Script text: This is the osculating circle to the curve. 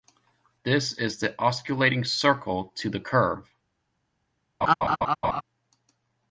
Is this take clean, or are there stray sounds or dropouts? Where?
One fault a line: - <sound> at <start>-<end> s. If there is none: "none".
- laugh at 4.6-5.4 s